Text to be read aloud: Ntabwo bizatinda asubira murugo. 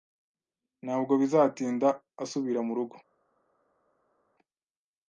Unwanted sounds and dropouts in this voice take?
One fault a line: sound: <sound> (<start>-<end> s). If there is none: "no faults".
no faults